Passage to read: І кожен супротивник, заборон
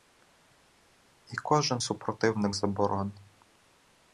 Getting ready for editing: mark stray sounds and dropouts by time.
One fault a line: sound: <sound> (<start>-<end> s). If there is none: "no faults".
no faults